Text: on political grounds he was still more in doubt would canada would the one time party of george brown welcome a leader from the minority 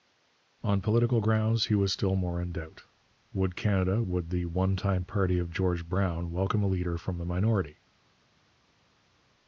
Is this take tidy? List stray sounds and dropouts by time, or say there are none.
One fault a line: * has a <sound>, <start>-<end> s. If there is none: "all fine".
all fine